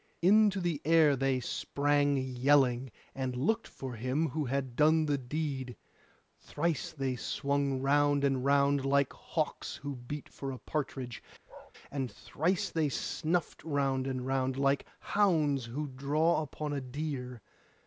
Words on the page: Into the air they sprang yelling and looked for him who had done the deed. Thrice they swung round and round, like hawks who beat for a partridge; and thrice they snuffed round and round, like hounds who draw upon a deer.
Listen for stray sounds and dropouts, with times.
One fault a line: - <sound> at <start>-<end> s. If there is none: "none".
- bark at 11.5-11.7 s